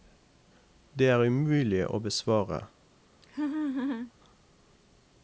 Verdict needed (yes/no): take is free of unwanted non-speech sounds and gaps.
no